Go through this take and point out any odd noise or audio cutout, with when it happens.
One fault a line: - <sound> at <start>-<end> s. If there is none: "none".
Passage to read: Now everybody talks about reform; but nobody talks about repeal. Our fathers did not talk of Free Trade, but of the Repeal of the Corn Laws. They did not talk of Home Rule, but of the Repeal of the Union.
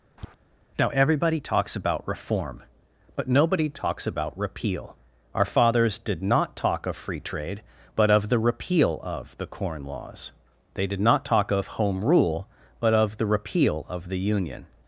- tap at 0.2-0.4 s